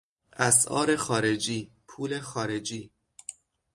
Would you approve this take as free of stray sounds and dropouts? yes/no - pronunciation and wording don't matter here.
yes